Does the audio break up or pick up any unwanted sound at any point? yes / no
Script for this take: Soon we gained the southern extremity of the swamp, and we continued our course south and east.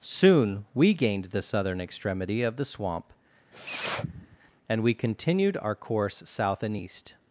yes